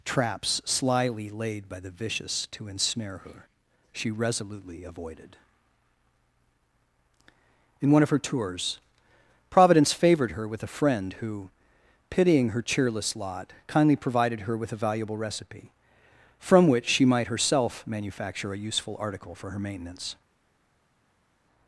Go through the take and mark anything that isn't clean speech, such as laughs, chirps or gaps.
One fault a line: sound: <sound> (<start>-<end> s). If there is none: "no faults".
no faults